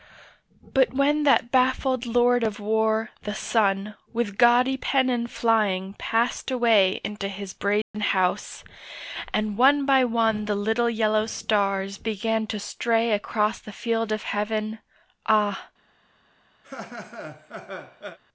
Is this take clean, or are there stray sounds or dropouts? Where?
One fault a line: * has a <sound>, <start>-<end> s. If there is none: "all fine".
* has a dropout, 7.8-7.9 s
* has a laugh, 16.6-18.2 s